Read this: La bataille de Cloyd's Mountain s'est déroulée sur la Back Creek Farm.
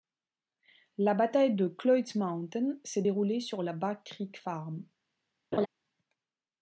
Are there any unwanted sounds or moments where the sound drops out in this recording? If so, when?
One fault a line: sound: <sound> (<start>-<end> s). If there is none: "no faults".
sound: laugh (5.5-5.7 s)